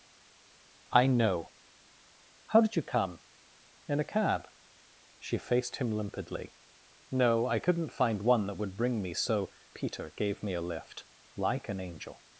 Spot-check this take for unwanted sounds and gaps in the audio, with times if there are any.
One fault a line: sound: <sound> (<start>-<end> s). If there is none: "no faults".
no faults